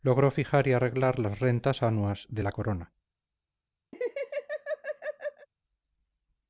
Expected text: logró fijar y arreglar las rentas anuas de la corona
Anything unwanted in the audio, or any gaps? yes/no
yes